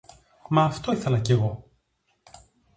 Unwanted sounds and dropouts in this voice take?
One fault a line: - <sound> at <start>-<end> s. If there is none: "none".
none